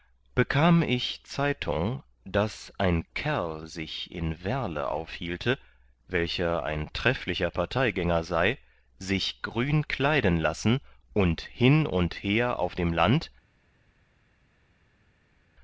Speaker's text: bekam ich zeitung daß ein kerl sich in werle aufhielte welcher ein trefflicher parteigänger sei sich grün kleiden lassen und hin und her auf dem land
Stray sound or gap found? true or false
false